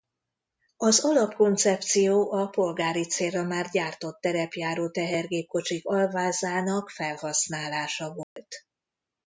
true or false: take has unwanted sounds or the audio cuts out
true